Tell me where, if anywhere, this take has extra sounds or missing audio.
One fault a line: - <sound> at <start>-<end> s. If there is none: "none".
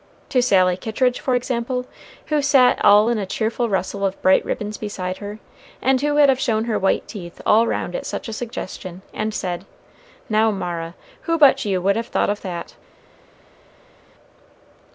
none